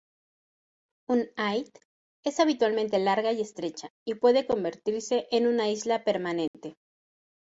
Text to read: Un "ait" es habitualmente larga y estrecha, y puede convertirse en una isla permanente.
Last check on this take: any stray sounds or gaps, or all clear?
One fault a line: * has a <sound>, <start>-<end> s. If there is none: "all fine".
* has a dropout, 6.5-6.5 s